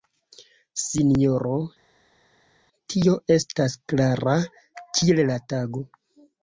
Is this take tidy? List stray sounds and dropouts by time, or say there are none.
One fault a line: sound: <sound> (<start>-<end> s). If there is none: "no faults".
no faults